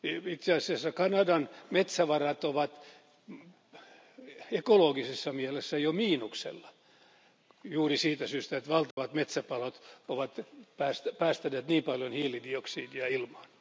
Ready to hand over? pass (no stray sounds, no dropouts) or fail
fail